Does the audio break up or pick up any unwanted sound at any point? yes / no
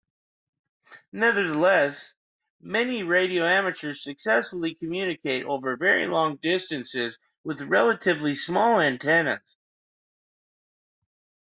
no